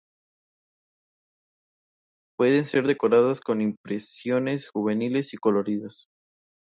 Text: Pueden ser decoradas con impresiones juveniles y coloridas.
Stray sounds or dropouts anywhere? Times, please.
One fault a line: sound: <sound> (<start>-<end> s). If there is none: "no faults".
no faults